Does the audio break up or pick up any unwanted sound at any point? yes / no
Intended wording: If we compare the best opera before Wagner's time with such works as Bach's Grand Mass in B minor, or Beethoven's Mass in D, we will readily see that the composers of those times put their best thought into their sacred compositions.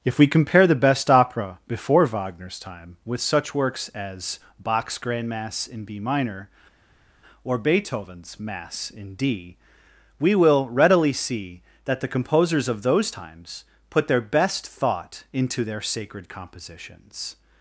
no